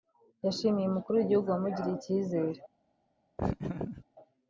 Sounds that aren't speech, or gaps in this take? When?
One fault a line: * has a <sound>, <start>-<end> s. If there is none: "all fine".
* has a laugh, 3.4-4.0 s